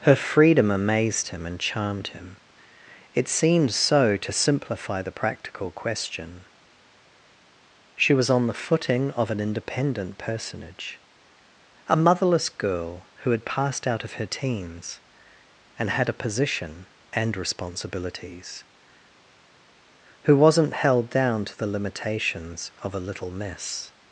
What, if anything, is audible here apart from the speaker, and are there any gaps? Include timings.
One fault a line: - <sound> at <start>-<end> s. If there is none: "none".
none